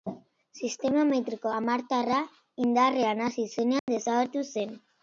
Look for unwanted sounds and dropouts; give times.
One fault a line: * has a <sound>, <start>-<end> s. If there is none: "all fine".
* has a dropout, 3.8-3.9 s